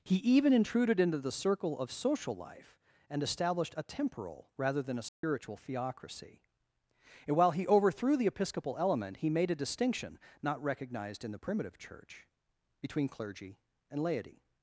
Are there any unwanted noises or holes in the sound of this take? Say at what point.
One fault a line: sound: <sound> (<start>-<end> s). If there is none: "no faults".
sound: dropout (5.1-5.2 s)